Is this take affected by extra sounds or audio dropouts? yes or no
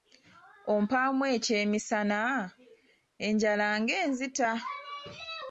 no